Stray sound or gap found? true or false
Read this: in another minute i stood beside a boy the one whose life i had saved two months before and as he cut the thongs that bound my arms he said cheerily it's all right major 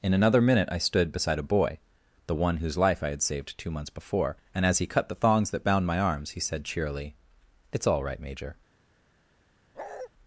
true